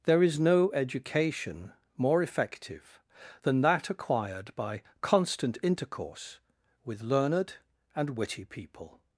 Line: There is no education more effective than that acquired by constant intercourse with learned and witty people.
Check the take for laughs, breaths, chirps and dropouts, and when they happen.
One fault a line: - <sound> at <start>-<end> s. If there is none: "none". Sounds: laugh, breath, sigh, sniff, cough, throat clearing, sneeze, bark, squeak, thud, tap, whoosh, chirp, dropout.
none